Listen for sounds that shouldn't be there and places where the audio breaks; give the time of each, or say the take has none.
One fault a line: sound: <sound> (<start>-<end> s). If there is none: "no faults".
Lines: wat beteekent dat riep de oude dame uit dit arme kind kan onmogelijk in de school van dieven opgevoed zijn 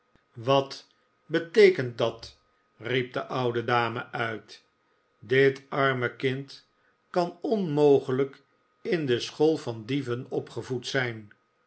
no faults